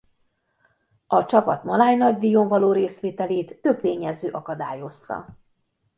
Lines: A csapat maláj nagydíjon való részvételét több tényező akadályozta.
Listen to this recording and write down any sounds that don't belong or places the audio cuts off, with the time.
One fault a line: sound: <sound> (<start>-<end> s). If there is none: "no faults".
no faults